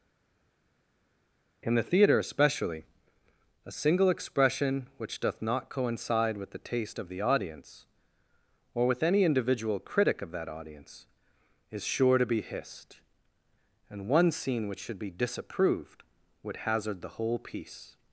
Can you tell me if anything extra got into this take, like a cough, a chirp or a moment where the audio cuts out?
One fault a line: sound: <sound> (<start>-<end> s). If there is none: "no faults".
no faults